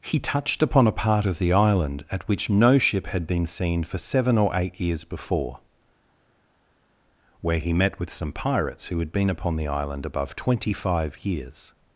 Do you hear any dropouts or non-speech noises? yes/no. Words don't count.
no